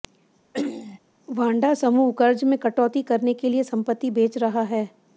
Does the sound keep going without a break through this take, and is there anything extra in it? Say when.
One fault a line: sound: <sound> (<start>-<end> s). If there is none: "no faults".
sound: throat clearing (0.5-1.0 s)